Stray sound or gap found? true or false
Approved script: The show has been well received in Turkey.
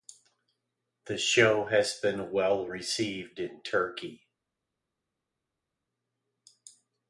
false